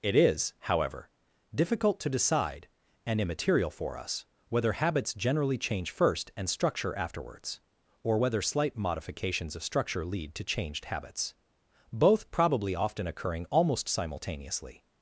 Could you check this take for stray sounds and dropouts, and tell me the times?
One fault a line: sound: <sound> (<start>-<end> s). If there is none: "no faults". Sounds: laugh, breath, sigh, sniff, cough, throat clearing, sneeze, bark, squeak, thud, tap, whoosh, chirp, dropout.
no faults